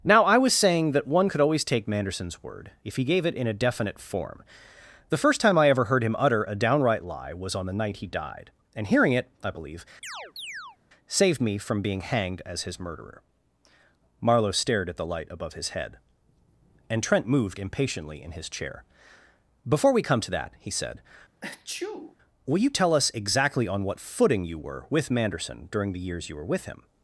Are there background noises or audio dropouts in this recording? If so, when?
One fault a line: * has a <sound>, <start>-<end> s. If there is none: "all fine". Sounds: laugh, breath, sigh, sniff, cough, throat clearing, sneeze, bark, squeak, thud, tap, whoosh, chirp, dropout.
* has a chirp, 10.0-10.8 s
* has a sneeze, 21.4-22.2 s